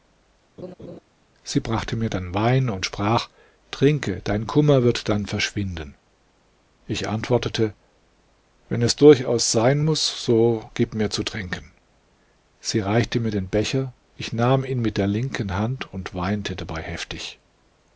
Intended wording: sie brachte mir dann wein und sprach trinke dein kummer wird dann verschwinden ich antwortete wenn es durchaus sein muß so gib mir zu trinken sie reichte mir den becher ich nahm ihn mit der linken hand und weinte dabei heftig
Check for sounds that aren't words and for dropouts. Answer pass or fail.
fail